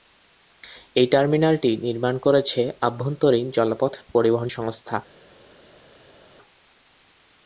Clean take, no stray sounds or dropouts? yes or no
yes